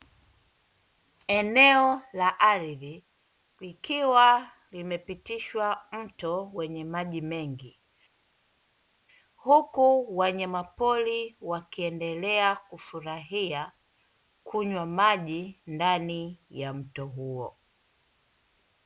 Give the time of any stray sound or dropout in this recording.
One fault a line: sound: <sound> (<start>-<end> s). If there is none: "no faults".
no faults